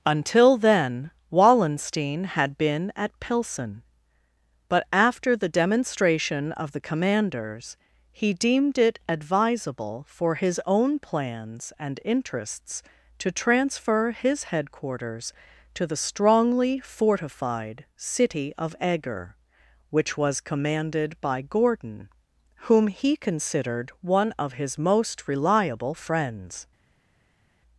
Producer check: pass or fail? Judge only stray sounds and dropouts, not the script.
pass